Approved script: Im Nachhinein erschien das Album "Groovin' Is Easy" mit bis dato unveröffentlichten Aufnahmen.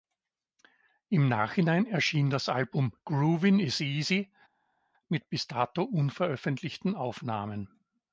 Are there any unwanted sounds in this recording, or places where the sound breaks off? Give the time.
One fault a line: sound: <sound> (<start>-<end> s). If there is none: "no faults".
no faults